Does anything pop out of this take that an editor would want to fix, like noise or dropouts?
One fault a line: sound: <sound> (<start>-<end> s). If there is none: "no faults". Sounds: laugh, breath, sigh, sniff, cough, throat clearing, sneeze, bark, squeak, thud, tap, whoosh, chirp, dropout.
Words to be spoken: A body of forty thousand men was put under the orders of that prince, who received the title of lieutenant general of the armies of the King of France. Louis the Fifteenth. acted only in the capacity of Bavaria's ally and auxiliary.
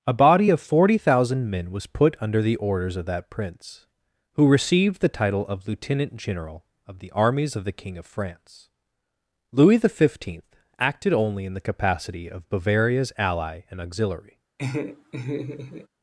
sound: laugh (14.6-15.9 s)